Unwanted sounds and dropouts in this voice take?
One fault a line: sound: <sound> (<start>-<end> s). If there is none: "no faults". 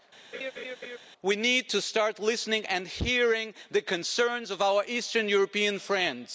sound: laugh (0.3-1.0 s)